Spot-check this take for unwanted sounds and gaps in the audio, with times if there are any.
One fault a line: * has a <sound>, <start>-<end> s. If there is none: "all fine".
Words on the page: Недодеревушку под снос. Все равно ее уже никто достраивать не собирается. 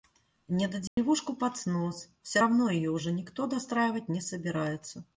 * has a dropout, 0.9-1.0 s